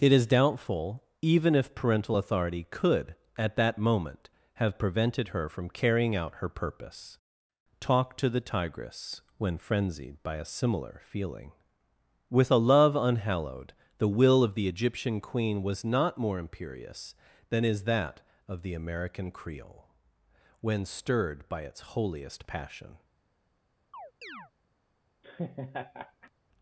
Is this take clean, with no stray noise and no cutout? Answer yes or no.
no